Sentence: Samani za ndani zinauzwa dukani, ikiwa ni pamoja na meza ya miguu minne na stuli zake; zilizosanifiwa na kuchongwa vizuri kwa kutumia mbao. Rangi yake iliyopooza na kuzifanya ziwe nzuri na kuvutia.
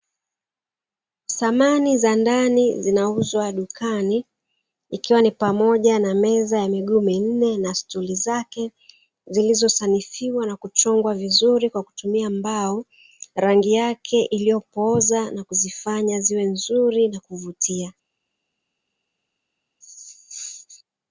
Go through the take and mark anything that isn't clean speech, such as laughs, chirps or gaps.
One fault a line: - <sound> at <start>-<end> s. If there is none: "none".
none